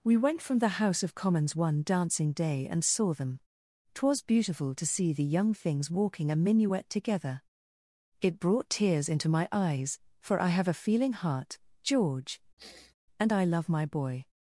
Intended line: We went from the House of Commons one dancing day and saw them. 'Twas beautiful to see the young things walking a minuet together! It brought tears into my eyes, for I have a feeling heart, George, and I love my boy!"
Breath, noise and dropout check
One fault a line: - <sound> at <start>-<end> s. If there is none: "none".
- sniff at 12.6-12.9 s